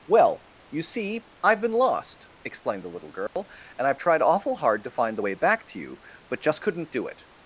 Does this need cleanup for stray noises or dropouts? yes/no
yes